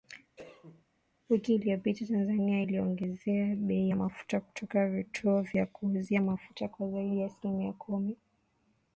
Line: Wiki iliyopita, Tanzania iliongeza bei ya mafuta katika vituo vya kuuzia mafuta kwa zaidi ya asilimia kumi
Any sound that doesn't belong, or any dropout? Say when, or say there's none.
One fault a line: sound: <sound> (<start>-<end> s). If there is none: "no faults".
sound: cough (0.4-0.9 s)